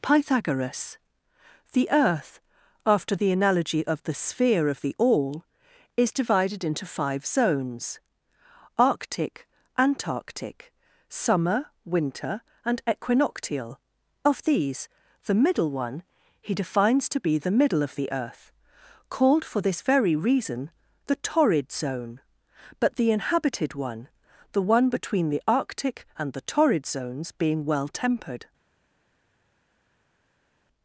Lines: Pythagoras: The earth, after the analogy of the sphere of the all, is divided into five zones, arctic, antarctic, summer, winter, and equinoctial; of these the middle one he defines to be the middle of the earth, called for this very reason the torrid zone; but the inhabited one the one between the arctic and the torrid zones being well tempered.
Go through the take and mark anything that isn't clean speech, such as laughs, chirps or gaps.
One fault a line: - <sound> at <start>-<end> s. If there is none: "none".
none